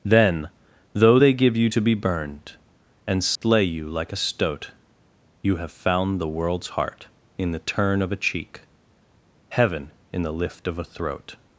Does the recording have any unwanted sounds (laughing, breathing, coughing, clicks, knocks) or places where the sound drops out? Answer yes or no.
yes